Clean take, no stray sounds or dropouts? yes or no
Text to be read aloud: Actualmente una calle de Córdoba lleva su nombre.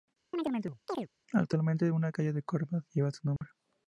no